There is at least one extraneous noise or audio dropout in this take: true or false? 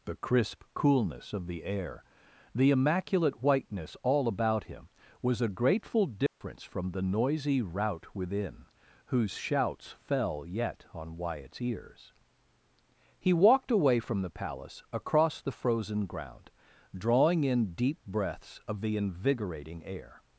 true